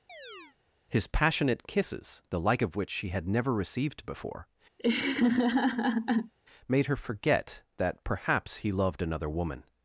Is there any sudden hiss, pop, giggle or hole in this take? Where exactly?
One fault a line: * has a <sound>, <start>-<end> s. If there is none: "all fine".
* has a chirp, 0.1-0.6 s
* has a laugh, 4.8-6.3 s